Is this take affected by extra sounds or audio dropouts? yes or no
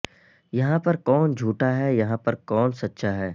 no